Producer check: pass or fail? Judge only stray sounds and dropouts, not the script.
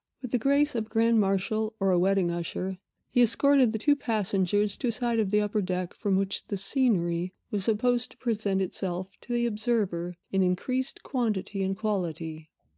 pass